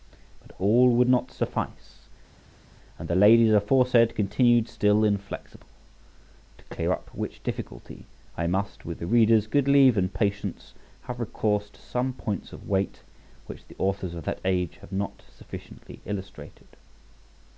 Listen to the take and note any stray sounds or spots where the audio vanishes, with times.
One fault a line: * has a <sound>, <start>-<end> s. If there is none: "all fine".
all fine